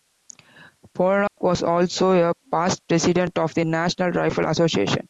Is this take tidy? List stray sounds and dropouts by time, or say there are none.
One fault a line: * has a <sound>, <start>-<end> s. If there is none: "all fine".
* has a dropout, 1.3-1.4 s